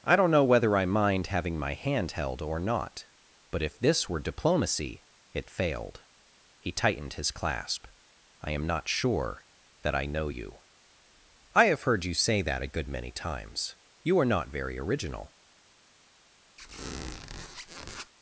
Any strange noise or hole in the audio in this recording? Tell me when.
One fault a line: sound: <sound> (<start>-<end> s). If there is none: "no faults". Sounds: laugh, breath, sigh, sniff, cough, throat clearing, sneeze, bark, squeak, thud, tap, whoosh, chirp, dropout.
sound: squeak (16.6-18.1 s)